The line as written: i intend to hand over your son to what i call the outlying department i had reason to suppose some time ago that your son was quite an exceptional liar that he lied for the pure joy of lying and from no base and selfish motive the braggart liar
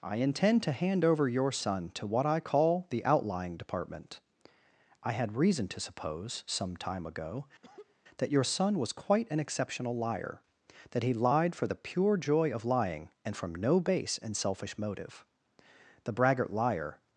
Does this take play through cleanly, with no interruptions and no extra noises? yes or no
no